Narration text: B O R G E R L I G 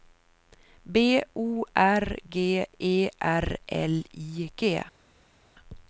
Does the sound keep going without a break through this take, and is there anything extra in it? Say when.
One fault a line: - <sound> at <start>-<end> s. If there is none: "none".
none